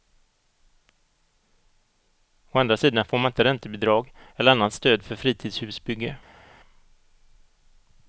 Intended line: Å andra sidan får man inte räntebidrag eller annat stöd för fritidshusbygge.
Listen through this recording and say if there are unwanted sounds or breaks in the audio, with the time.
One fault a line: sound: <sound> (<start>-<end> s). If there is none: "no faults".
no faults